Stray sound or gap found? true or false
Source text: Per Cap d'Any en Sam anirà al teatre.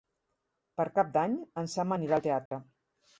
true